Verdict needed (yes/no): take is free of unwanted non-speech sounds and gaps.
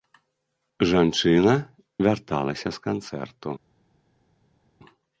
yes